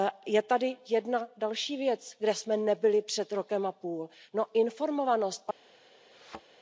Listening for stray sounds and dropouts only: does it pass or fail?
fail